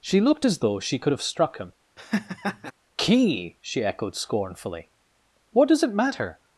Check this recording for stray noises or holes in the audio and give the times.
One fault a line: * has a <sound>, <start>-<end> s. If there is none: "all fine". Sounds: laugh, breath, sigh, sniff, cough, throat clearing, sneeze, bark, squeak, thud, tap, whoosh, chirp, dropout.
* has a laugh, 2.0-2.7 s